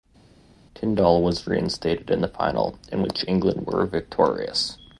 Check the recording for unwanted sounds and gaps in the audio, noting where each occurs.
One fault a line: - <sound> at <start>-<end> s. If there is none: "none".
none